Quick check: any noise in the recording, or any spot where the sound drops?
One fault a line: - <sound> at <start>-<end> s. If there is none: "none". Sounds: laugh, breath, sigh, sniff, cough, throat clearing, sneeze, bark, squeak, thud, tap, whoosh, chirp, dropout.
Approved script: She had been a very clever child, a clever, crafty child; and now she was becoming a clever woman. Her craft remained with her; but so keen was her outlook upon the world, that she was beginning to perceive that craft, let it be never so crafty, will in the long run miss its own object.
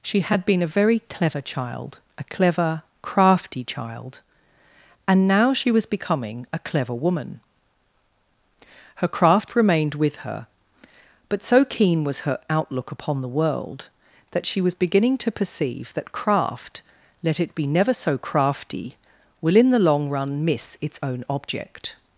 none